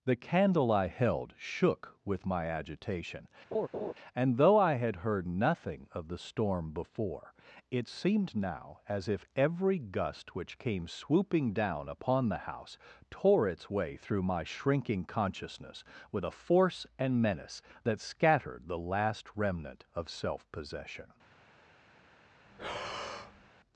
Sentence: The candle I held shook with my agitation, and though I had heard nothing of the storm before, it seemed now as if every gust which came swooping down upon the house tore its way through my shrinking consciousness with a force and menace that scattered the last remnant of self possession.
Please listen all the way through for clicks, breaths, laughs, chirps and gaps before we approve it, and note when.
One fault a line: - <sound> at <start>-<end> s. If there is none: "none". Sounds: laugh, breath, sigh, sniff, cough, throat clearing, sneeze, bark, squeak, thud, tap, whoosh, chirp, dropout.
- laugh at 3.5-3.9 s
- breath at 22.4-23.5 s